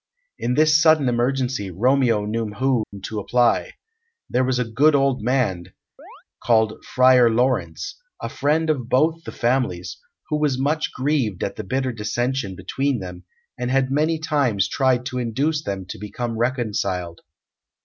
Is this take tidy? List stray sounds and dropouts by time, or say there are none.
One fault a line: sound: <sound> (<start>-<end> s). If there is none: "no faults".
sound: dropout (2.8-2.9 s)
sound: chirp (6.0-6.2 s)